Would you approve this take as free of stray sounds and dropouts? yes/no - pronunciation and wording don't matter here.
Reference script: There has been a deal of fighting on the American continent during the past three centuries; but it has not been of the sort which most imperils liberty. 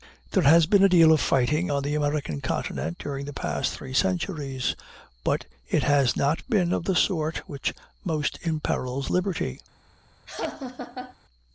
no